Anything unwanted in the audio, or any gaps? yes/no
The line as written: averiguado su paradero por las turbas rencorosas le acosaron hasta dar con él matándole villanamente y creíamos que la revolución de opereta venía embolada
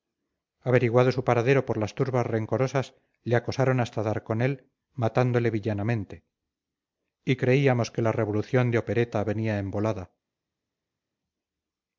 no